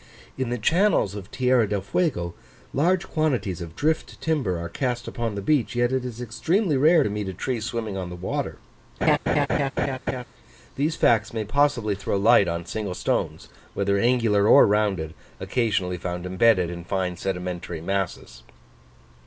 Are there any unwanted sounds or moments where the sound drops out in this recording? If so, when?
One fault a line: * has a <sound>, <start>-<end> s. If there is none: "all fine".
* has a laugh, 9.0-10.2 s